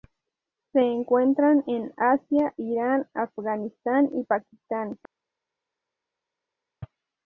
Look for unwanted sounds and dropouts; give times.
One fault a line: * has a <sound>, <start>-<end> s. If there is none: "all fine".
all fine